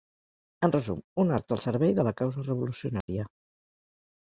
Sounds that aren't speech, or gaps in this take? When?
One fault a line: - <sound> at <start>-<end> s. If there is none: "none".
- dropout at 3.0-3.1 s